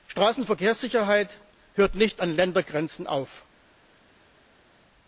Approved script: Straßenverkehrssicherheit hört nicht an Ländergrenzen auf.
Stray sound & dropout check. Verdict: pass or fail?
pass